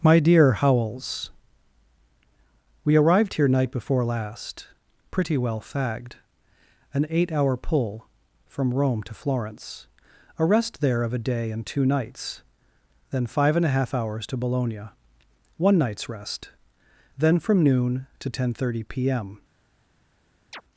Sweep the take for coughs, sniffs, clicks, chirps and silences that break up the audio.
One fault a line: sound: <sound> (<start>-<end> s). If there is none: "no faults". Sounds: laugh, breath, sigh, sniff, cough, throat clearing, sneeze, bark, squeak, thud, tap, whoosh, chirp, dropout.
sound: chirp (20.5-20.6 s)